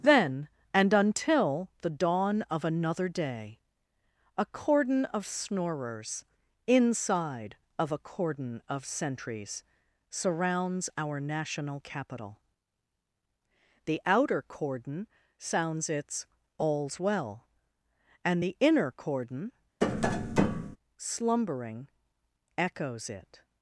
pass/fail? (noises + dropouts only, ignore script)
fail